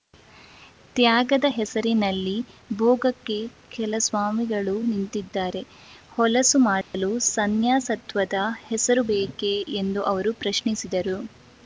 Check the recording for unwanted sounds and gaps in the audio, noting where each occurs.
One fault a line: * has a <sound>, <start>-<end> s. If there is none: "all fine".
* has a dropout, 6.8-6.9 s